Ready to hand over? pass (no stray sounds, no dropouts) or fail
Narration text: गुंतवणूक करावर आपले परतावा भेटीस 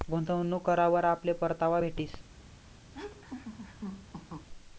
fail